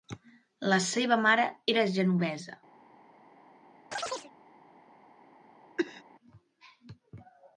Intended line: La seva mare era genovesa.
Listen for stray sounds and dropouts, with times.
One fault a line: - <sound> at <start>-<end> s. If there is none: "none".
- chirp at 3.9-4.3 s
- cough at 5.8-6.0 s